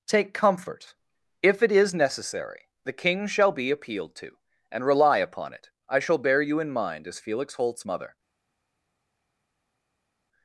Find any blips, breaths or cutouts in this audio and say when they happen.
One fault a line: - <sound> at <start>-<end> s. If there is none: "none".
none